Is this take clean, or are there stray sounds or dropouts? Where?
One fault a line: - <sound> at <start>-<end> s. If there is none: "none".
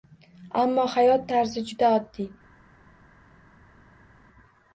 none